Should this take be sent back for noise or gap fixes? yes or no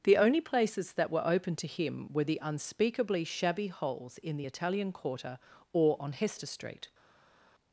no